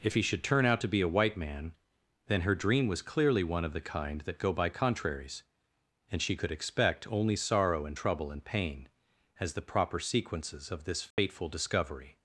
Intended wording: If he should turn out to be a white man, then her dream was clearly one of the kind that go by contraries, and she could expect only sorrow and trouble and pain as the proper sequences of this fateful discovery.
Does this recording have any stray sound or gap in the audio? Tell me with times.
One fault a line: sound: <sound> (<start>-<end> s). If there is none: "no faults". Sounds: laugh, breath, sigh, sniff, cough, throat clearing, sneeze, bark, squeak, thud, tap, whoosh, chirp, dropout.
sound: dropout (11.1-11.2 s)